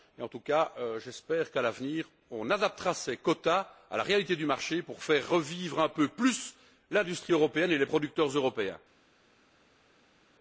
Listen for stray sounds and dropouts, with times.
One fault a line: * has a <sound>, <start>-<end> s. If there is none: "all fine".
all fine